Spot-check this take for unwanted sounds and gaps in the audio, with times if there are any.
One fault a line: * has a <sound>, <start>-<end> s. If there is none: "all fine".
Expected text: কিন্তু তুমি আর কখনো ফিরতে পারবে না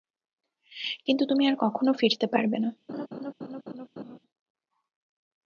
* has a laugh, 2.9-4.2 s